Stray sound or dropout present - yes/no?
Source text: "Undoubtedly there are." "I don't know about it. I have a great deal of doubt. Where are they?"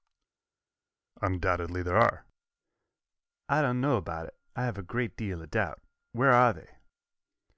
no